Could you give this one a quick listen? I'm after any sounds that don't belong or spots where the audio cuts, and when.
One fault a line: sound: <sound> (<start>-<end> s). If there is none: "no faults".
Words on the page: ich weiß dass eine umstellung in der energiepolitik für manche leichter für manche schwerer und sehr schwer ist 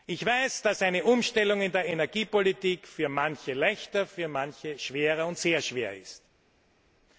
no faults